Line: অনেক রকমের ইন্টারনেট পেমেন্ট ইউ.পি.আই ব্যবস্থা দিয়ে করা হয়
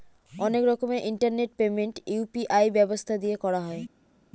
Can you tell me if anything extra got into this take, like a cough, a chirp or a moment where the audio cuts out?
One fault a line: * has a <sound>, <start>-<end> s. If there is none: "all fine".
all fine